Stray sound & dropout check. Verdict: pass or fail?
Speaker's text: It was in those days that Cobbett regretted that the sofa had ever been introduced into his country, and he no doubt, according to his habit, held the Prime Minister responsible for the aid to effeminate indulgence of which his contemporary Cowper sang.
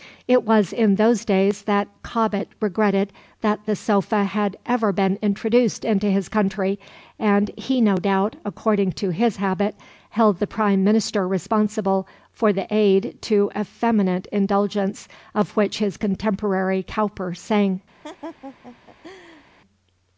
fail